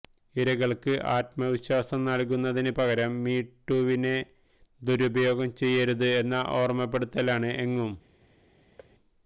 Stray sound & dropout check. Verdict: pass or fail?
fail